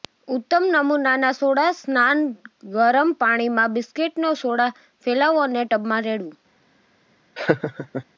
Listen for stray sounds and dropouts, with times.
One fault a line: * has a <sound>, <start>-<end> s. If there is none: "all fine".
* has a laugh, 7.4-8.1 s